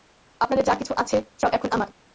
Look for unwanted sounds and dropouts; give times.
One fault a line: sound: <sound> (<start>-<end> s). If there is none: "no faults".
no faults